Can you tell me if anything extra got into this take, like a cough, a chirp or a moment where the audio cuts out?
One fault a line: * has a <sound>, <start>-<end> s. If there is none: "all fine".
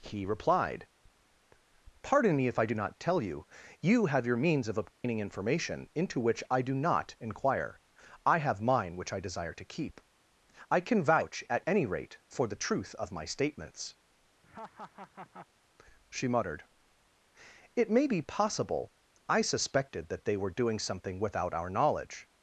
* has a dropout, 4.9-5.0 s
* has a laugh, 14.4-15.5 s